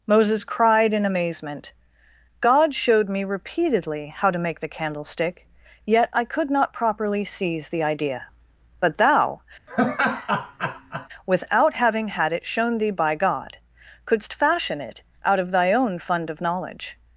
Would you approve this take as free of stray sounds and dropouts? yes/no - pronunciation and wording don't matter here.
no